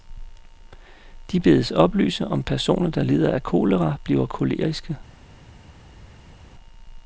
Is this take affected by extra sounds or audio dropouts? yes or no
no